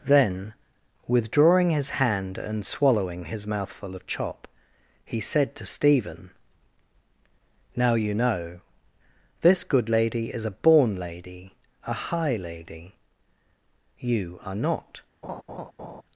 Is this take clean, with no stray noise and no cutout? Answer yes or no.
no